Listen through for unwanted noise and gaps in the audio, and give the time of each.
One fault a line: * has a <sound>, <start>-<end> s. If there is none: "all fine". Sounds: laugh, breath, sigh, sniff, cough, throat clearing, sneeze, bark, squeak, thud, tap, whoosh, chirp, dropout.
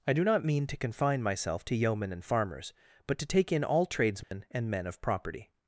* has a dropout, 4.2-4.3 s